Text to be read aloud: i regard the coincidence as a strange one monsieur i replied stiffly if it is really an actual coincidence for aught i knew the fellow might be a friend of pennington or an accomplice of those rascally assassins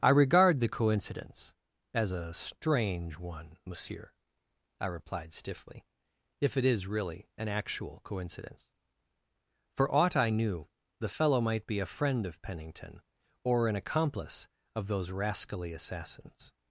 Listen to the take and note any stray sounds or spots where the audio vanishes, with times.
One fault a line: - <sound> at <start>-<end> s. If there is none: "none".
none